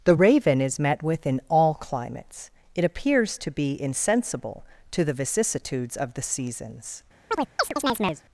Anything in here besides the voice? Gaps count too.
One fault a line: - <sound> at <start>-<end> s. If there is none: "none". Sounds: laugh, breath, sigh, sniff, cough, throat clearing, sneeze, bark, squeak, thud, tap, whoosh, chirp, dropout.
- chirp at 7.3-8.2 s